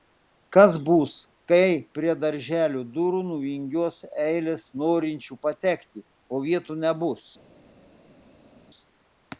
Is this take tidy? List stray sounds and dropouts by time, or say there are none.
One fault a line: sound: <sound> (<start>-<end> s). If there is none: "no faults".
no faults